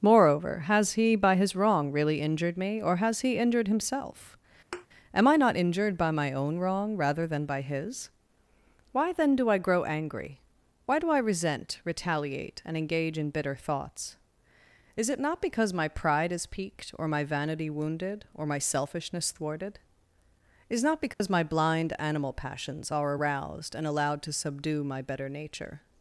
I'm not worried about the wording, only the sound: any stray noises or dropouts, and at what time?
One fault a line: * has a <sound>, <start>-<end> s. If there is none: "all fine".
* has a thud, 4.7-4.9 s
* has a dropout, 21.1-21.2 s